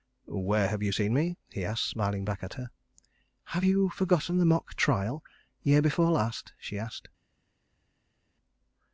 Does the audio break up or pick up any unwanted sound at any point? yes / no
no